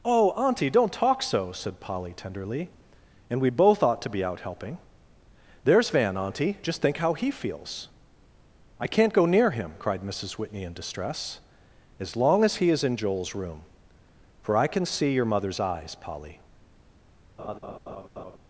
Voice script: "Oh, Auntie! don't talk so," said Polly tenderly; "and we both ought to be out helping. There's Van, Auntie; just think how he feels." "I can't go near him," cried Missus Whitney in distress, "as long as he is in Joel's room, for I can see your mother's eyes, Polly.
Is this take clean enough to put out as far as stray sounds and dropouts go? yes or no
no